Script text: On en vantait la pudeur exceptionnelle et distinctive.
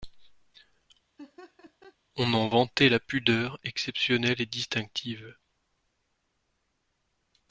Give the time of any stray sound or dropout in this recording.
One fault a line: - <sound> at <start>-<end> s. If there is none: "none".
- laugh at 1.2-2.0 s